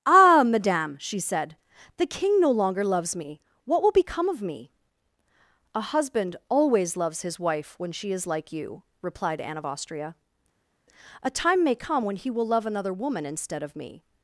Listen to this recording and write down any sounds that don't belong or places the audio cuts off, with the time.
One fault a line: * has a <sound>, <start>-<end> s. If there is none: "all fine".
all fine